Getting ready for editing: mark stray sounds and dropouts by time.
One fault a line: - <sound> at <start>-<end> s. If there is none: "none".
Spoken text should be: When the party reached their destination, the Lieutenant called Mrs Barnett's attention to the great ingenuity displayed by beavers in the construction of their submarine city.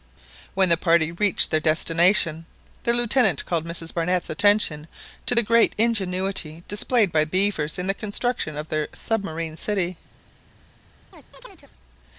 - chirp at 11.1-11.7 s